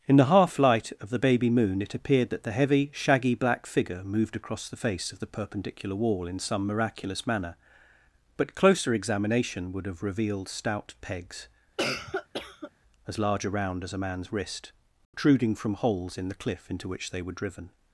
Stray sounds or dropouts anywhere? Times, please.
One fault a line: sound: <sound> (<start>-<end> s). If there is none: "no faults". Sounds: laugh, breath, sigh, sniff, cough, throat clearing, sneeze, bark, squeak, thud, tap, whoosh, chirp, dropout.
sound: cough (11.8-12.7 s)
sound: dropout (15.0-15.1 s)